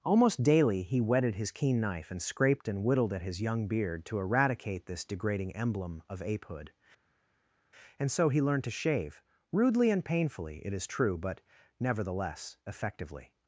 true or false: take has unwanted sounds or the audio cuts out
false